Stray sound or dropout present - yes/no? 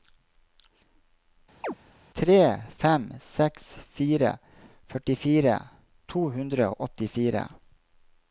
yes